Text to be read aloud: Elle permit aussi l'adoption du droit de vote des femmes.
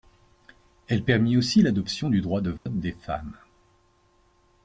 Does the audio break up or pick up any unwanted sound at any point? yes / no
yes